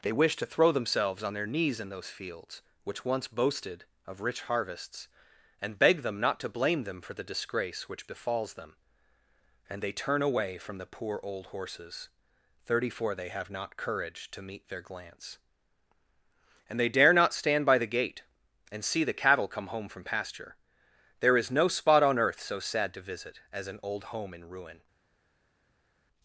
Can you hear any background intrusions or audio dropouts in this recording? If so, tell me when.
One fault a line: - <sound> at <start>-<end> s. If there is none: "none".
none